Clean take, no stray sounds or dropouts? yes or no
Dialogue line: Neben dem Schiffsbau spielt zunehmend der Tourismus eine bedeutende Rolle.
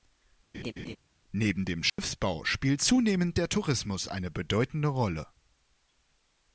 no